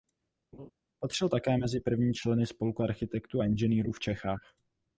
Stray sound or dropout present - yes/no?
yes